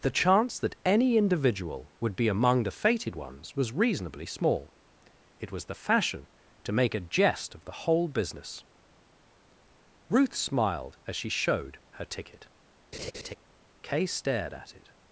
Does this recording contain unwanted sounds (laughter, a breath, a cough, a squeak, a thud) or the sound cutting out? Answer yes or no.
yes